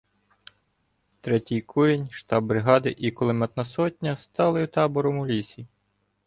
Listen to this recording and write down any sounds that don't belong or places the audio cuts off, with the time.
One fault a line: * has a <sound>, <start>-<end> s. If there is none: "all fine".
all fine